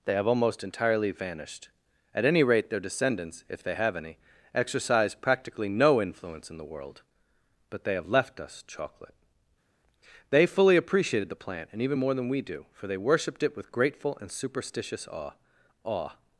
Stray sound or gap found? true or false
false